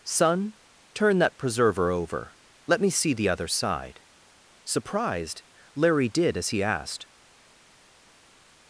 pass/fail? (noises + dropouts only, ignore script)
pass